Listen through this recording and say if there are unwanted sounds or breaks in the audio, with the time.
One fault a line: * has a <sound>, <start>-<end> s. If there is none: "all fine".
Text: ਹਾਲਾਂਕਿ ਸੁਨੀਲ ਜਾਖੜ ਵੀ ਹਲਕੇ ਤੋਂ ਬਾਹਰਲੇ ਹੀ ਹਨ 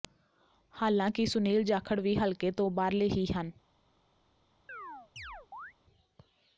* has a chirp, 4.7-5.7 s